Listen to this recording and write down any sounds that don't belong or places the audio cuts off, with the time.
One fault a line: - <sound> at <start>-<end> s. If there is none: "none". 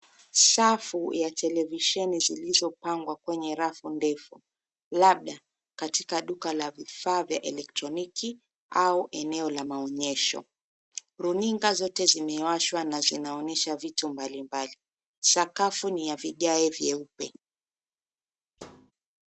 - thud at 18.6-18.9 s